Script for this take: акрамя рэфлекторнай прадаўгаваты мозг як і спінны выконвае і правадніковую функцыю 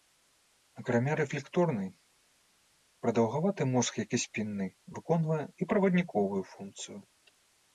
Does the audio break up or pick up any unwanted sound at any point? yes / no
no